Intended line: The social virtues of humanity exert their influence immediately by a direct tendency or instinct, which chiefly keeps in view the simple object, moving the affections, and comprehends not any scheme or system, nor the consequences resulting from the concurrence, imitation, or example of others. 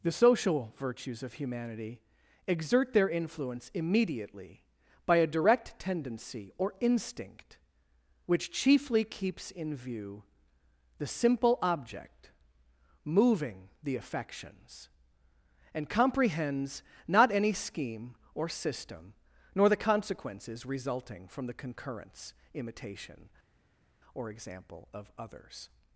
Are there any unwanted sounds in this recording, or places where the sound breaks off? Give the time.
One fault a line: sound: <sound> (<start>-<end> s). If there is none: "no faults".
no faults